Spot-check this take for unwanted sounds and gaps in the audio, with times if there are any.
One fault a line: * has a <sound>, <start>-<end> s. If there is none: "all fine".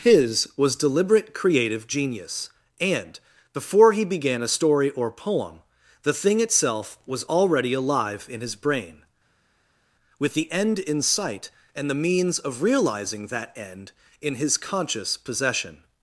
all fine